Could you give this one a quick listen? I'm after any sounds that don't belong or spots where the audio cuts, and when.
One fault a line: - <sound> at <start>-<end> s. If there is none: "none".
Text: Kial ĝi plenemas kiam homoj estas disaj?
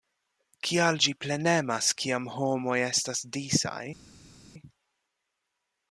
none